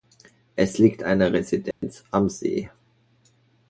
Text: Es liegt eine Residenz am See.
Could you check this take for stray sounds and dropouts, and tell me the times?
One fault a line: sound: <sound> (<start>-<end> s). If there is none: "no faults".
sound: dropout (1.7-1.8 s)